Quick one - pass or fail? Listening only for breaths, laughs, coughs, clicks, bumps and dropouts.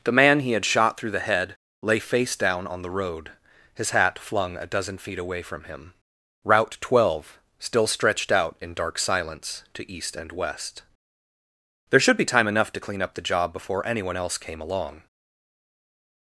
pass